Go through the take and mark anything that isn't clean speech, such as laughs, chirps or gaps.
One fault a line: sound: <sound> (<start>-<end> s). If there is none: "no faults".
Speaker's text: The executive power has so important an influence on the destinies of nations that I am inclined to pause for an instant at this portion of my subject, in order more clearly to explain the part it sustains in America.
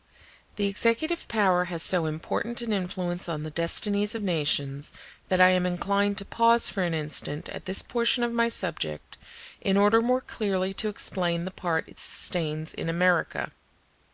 no faults